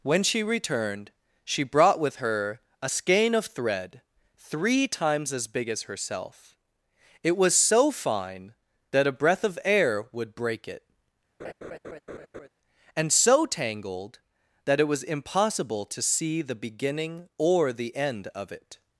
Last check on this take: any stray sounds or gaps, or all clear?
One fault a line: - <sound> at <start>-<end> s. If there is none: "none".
- laugh at 11.4-12.5 s